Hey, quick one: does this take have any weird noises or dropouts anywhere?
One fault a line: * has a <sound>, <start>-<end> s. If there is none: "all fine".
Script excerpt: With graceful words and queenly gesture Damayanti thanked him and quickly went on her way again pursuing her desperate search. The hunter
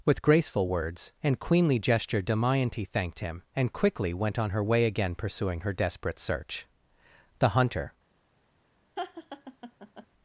* has a laugh, 9.0-10.1 s